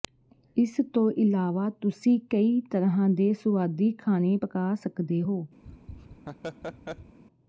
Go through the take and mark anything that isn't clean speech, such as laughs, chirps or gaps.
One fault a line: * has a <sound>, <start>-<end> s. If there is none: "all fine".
* has a laugh, 5.6-7.2 s